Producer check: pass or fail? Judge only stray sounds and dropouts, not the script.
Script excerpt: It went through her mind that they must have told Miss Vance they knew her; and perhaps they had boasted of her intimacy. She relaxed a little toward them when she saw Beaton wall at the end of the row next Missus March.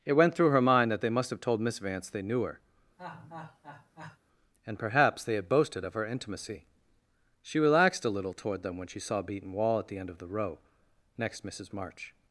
fail